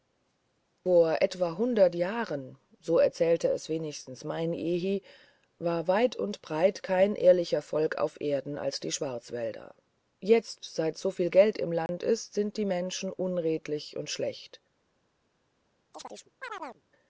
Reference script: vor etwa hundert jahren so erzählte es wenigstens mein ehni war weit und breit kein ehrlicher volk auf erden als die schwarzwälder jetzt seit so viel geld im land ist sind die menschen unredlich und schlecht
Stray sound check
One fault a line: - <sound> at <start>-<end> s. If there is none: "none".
- dropout at 11.9-11.9 s
- chirp at 15.9-16.8 s